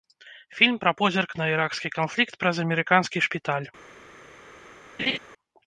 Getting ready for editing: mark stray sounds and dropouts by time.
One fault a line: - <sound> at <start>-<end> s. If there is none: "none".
- laugh at 5.0-5.2 s